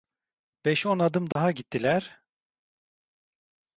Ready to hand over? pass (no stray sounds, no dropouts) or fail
fail